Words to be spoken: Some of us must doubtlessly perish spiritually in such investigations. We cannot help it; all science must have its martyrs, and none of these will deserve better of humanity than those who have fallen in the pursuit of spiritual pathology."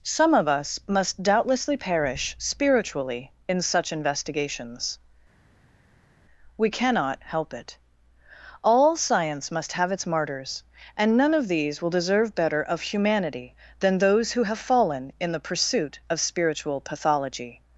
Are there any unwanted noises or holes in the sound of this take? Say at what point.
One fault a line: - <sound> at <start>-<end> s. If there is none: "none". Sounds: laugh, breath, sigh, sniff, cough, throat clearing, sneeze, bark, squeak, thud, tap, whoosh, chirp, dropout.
none